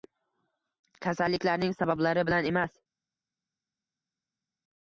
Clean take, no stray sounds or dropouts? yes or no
yes